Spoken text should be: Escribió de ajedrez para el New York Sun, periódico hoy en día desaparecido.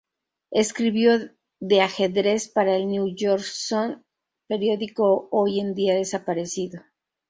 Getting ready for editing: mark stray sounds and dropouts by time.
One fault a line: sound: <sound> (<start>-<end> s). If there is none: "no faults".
no faults